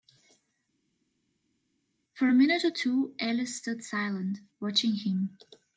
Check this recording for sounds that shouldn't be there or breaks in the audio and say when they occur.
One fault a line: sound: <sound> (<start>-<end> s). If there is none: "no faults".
no faults